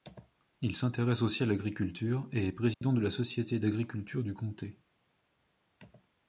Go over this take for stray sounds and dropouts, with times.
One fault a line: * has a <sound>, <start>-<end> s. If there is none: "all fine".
* has a dropout, 2.7-2.8 s